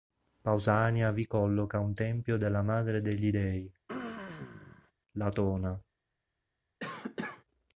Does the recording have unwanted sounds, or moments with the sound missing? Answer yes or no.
yes